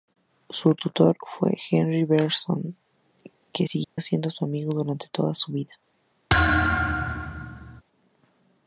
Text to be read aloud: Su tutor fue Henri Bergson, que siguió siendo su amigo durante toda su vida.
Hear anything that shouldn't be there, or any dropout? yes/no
yes